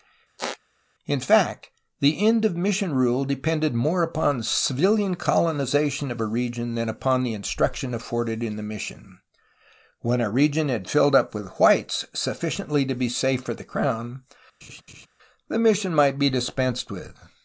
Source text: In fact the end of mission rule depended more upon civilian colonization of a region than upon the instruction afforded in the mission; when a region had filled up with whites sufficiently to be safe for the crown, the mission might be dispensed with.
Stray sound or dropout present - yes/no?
yes